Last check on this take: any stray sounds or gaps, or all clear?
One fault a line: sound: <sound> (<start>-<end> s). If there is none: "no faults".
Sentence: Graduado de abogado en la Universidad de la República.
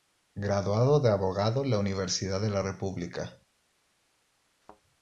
sound: thud (4.6-4.8 s)